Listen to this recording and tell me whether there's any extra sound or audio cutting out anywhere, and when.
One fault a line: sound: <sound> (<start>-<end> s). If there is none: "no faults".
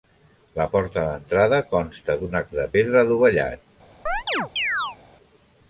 sound: chirp (4.1-5.0 s)